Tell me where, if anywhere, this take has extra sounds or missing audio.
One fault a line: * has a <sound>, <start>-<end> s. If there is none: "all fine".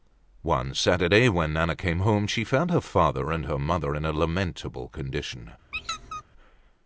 * has a squeak, 5.7-6.2 s